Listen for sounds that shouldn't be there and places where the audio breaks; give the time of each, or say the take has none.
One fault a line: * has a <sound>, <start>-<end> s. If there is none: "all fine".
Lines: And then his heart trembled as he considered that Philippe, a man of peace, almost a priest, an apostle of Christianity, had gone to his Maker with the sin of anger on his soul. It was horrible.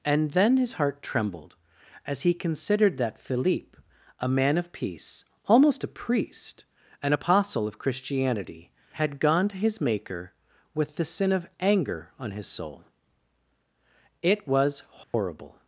* has a dropout, 15.0-15.1 s